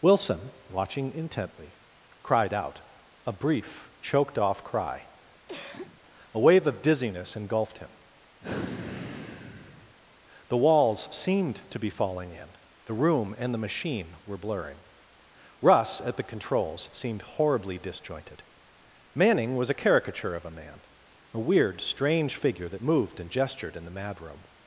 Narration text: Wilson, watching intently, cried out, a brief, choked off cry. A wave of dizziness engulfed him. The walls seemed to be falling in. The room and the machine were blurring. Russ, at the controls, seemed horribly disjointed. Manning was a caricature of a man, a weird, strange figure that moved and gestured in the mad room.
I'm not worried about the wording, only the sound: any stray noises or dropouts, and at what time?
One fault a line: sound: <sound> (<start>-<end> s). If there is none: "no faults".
sound: cough (5.5-6.0 s)
sound: sigh (8.4-9.9 s)